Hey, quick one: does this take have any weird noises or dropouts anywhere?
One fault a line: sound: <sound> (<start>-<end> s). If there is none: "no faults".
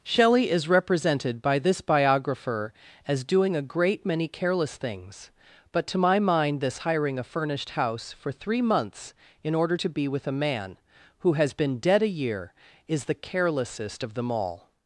no faults